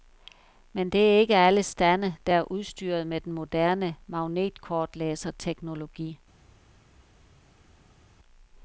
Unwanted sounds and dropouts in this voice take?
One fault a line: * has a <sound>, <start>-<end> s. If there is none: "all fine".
all fine